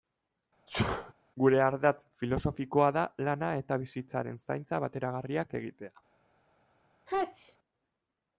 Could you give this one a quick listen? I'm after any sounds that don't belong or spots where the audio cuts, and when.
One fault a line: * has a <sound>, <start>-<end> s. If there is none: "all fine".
* has a sneeze, 0.7-1.1 s
* has a sneeze, 7.1-7.6 s